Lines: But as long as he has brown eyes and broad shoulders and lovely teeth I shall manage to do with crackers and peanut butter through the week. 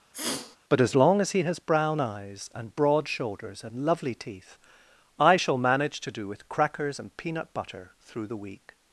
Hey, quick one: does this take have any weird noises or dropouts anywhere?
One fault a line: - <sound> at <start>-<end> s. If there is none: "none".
- sniff at 0.1-0.6 s